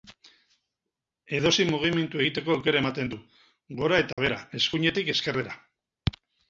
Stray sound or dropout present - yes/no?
yes